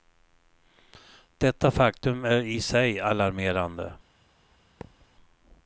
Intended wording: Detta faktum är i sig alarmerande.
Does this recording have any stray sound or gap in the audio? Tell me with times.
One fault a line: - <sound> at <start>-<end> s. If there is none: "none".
- thud at 4.8-5.1 s